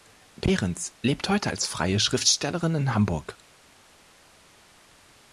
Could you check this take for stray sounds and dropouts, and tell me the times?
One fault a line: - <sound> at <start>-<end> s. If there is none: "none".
none